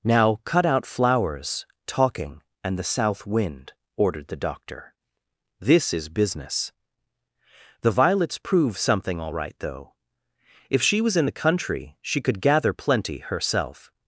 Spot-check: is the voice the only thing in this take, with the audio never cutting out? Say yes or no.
yes